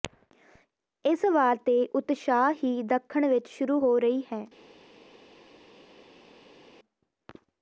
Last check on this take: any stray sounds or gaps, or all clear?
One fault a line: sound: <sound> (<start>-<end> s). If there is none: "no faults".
no faults